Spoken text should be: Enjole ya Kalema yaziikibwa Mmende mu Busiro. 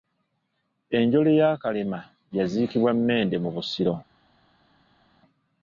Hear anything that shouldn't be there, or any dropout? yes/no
no